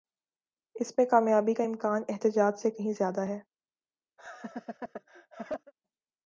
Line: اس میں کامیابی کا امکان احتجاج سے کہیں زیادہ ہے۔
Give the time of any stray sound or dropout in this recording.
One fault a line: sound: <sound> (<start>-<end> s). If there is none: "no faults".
sound: laugh (4.2-5.7 s)